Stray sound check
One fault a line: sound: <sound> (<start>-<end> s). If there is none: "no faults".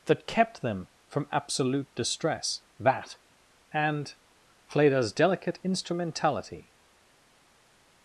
no faults